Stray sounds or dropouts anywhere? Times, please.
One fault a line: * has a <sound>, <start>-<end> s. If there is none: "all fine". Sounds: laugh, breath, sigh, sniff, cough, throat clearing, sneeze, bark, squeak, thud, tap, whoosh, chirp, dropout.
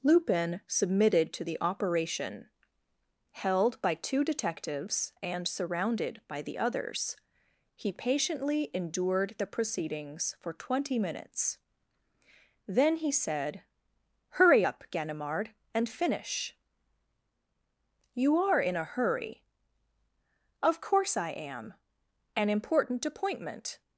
all fine